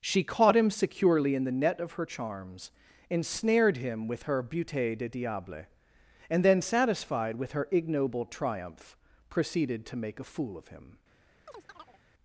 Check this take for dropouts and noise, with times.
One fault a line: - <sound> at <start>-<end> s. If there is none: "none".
- chirp at 11.5-12.0 s